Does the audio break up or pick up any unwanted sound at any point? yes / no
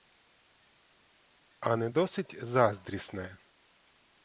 no